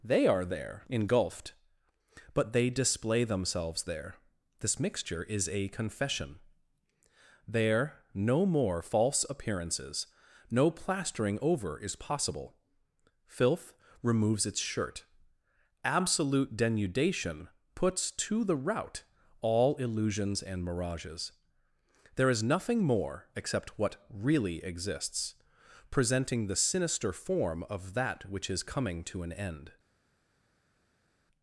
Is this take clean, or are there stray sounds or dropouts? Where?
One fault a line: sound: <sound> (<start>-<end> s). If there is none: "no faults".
no faults